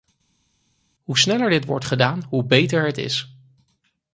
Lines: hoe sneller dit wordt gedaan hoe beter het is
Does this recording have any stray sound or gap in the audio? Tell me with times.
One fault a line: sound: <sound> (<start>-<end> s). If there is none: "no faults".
no faults